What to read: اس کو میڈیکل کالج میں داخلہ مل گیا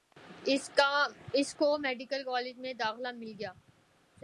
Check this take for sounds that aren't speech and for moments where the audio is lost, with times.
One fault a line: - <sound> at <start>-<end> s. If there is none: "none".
none